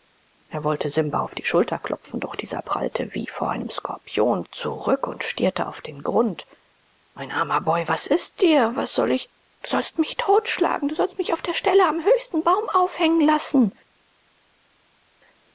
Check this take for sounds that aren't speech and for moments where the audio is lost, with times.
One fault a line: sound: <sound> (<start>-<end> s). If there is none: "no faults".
no faults